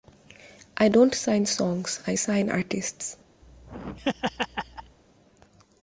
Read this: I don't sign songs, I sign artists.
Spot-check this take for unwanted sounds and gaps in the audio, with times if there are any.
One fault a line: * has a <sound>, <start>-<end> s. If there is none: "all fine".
* has a laugh, 3.4-5.0 s